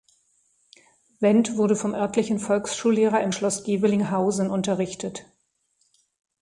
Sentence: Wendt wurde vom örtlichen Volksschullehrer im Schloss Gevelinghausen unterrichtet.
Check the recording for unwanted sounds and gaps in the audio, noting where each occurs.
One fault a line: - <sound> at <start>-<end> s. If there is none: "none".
none